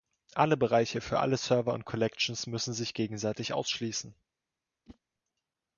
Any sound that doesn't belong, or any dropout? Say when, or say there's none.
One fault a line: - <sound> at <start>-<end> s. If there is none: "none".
- whoosh at 4.9-5.0 s